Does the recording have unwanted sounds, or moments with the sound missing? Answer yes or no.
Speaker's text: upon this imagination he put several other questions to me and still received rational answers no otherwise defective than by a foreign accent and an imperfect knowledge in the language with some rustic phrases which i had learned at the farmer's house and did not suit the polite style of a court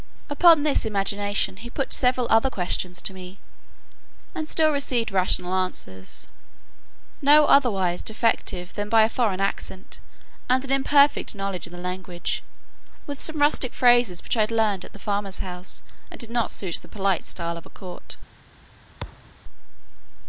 yes